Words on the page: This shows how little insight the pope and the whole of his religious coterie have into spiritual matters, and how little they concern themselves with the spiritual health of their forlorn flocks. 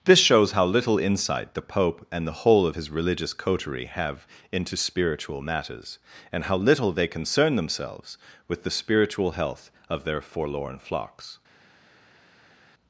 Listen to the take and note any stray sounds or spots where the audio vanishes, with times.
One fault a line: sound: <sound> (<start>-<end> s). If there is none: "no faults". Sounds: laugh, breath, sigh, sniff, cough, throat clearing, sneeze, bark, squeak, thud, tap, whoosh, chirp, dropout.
no faults